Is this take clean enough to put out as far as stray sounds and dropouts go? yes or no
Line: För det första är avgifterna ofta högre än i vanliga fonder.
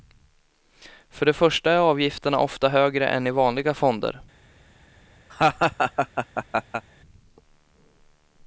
no